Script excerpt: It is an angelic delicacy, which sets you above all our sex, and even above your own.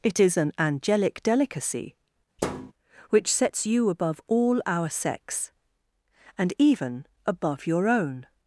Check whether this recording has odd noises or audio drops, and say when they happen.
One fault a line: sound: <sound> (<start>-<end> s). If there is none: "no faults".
sound: thud (2.4-2.7 s)